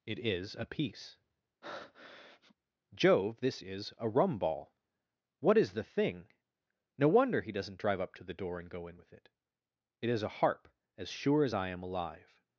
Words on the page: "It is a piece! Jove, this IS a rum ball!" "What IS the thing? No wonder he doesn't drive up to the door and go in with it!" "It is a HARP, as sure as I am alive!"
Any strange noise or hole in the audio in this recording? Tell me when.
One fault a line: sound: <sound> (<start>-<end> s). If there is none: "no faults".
sound: breath (1.6-2.5 s)